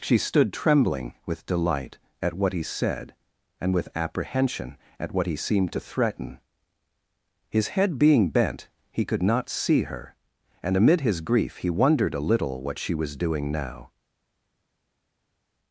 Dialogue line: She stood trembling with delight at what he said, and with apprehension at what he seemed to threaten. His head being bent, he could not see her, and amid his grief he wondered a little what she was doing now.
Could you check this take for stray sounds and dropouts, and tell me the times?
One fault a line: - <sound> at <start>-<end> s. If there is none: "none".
none